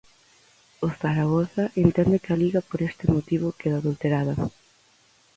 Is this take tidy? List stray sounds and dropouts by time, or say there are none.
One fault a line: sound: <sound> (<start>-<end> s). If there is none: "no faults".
no faults